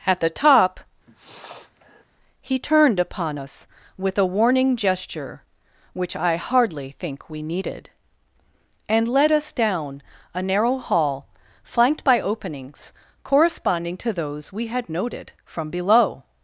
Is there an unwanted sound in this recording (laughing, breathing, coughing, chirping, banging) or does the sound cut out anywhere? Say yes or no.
yes